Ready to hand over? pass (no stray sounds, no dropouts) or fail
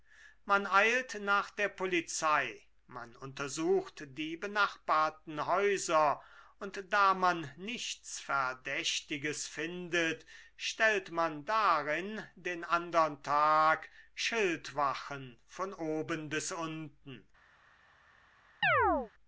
fail